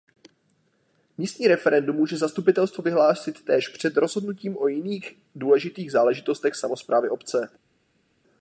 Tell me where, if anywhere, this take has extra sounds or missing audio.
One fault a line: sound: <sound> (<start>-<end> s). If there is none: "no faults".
no faults